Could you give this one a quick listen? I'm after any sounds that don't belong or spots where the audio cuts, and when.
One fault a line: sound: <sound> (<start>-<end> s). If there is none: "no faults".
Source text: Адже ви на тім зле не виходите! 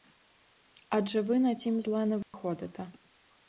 sound: dropout (2.2-2.3 s)